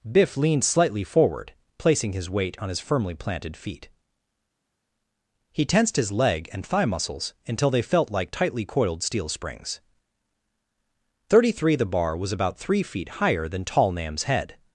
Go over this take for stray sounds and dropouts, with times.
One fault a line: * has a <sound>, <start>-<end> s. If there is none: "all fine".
all fine